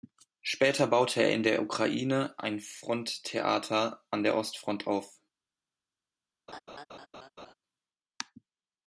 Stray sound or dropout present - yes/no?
yes